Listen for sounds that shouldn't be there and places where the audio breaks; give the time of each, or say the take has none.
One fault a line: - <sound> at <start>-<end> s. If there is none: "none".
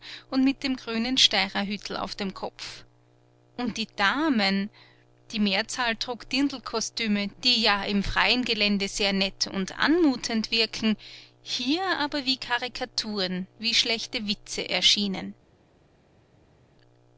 none